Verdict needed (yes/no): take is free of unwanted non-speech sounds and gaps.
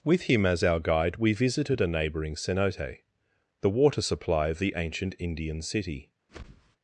no